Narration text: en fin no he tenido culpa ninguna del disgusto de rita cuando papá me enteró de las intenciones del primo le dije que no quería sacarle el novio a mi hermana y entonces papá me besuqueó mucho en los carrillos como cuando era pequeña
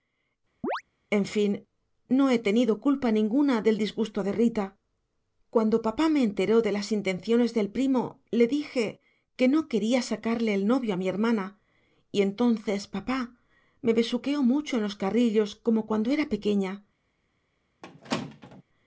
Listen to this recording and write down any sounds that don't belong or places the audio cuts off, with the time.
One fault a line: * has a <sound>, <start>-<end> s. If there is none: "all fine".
* has a chirp, 0.6-0.8 s
* has a squeak, 17.8-18.6 s